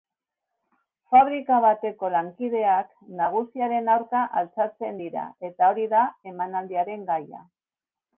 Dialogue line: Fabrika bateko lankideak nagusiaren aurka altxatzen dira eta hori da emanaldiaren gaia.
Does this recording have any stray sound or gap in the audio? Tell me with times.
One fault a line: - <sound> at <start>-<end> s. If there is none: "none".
none